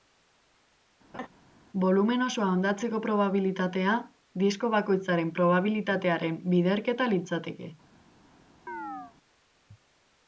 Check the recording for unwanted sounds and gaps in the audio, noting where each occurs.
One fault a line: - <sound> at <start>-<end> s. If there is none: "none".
- laugh at 1.1-1.3 s
- chirp at 8.7-9.1 s